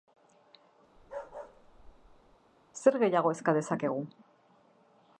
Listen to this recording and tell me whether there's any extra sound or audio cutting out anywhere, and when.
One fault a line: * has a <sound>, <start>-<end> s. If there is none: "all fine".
* has a bark, 1.0-2.4 s